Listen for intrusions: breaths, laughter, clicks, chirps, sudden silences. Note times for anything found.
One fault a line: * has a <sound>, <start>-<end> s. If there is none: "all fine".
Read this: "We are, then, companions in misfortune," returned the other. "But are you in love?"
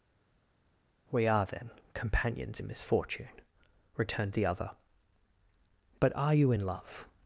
all fine